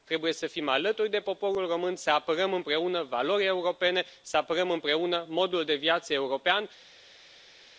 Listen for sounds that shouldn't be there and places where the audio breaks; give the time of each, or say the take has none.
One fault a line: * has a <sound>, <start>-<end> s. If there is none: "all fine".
all fine